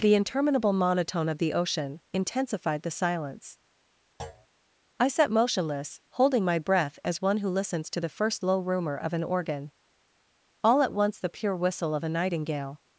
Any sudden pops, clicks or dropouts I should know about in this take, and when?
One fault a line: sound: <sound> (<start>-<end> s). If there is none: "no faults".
sound: thud (4.2-4.5 s)